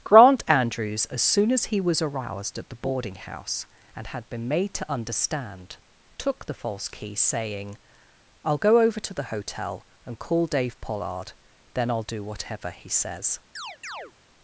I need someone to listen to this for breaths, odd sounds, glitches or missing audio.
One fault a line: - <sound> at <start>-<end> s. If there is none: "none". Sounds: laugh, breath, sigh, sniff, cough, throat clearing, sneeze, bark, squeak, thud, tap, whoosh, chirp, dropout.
- chirp at 13.6-14.1 s